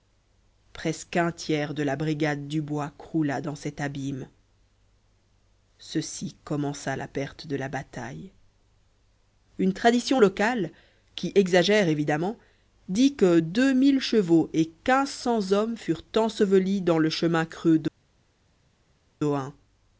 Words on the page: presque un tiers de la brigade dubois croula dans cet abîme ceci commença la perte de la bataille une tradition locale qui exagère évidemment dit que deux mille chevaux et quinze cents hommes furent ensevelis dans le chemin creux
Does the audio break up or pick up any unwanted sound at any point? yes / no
no